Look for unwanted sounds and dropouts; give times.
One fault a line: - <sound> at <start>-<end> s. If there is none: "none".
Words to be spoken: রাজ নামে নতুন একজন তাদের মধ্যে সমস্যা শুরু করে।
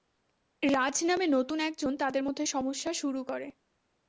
none